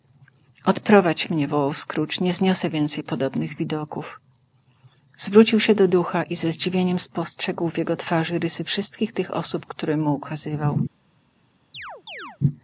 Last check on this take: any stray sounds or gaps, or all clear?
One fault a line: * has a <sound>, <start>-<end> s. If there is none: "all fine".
* has a chirp, 11.7-12.4 s